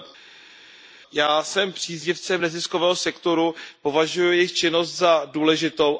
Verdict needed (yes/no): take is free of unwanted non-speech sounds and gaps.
yes